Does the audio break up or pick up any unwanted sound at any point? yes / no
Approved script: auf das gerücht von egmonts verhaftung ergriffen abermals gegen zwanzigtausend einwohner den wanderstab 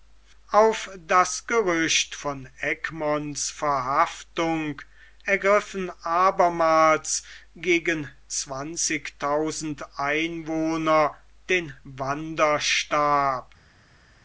no